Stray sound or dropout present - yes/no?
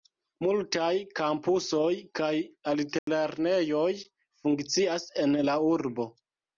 yes